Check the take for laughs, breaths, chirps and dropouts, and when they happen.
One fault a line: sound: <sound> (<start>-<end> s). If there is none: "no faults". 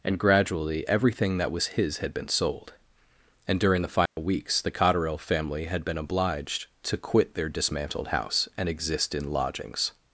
sound: dropout (4.1-4.2 s)